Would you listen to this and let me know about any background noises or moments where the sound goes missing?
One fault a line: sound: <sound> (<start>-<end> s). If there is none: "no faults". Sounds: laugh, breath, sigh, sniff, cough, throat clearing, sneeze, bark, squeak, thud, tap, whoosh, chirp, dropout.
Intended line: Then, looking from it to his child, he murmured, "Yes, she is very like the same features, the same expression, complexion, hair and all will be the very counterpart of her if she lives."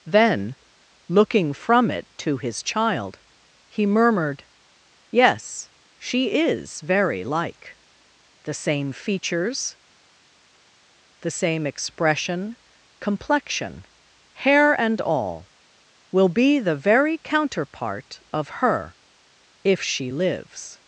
no faults